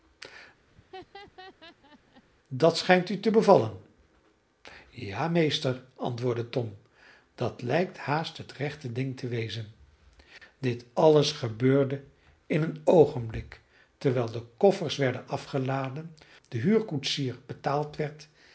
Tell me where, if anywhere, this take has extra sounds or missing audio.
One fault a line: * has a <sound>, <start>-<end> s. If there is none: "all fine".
* has a laugh, 0.7-2.2 s